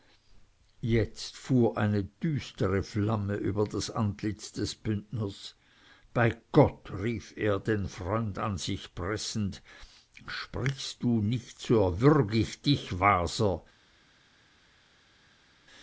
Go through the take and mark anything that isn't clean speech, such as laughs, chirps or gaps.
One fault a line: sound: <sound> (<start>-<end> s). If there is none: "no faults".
no faults